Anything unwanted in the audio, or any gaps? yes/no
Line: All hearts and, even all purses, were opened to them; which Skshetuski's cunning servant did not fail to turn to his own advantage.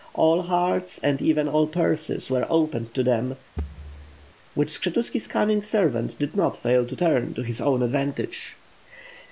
yes